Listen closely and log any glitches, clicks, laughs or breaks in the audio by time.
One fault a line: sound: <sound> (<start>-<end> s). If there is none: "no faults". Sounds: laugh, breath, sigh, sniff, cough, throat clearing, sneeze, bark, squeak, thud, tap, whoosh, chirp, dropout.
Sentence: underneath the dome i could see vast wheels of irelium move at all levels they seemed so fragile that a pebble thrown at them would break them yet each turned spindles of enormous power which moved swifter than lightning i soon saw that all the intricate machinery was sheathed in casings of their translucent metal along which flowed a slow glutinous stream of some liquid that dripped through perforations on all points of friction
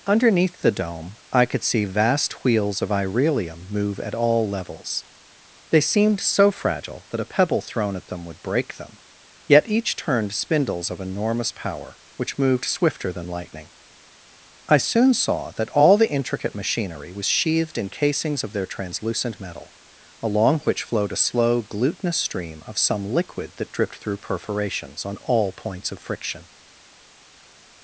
no faults